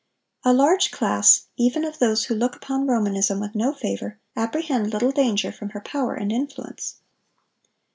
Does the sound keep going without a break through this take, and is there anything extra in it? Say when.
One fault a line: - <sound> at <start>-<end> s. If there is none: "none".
none